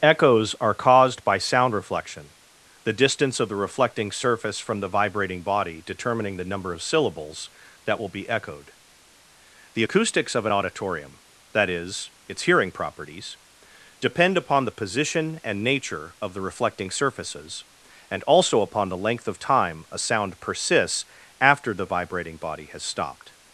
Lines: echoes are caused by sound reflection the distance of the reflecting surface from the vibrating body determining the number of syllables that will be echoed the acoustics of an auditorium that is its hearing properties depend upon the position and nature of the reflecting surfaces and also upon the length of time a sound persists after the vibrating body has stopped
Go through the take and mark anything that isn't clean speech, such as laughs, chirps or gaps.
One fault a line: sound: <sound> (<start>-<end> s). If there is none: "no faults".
no faults